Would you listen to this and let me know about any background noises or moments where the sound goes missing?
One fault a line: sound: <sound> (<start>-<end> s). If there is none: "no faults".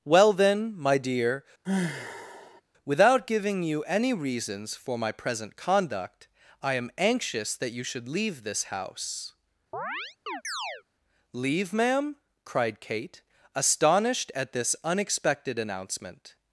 sound: sigh (1.6-2.6 s)
sound: chirp (9.7-10.8 s)